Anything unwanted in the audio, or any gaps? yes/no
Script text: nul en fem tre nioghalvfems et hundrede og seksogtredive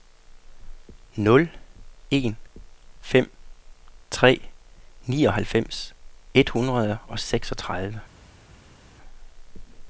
no